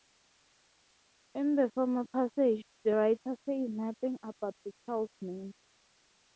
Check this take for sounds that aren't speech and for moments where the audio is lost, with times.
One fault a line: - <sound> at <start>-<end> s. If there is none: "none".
none